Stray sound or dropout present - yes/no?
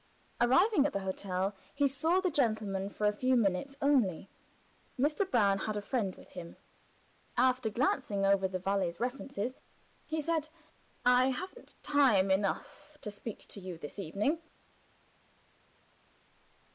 no